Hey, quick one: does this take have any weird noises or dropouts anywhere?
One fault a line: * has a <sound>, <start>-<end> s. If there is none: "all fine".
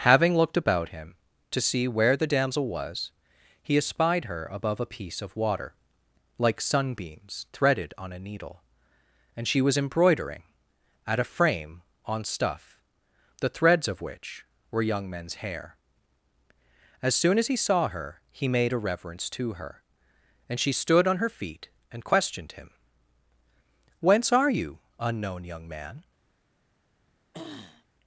* has a throat clearing, 27.3-27.8 s